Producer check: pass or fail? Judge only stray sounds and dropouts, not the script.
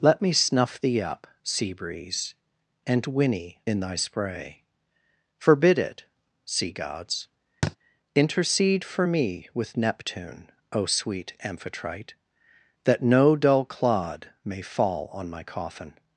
fail